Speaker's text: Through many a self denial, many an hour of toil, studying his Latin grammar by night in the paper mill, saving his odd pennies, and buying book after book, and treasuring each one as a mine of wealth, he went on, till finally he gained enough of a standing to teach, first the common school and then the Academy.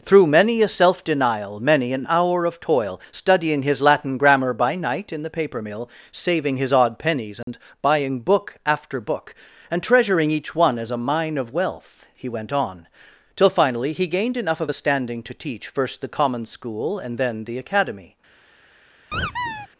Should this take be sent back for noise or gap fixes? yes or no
yes